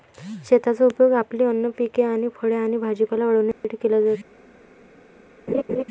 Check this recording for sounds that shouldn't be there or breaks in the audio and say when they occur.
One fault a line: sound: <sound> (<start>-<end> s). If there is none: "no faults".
sound: dropout (3.5-3.6 s)
sound: laugh (5.5-5.8 s)